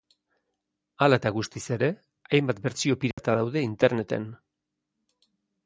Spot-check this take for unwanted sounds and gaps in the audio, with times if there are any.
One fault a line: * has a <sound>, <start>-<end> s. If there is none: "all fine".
* has a dropout, 3.1-3.2 s